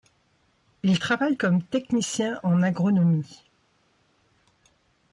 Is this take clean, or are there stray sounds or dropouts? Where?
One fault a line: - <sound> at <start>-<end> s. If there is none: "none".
none